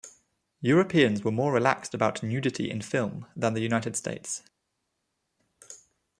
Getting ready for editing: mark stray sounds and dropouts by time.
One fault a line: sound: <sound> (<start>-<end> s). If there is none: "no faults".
no faults